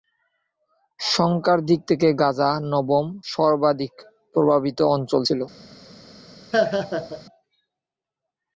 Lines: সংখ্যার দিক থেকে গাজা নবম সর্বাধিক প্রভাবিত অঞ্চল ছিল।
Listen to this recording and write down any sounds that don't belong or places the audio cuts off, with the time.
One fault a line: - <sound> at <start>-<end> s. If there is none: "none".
- laugh at 6.5-7.2 s